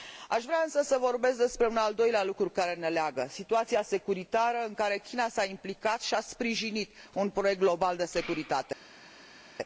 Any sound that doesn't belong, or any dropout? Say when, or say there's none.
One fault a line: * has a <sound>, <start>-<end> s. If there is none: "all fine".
all fine